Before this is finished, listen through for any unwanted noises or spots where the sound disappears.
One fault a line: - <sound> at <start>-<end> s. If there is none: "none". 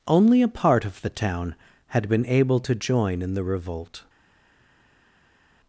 none